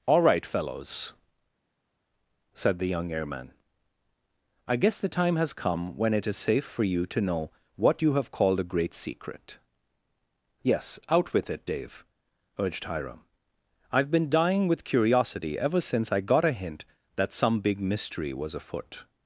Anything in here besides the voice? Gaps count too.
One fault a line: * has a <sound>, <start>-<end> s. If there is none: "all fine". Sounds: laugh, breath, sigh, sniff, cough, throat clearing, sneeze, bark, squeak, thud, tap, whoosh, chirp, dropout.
all fine